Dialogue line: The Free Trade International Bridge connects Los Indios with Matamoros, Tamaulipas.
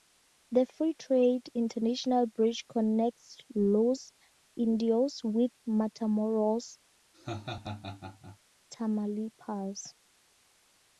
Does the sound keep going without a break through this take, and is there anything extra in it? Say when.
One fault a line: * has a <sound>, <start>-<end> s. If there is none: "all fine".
* has a laugh, 7.1-8.4 s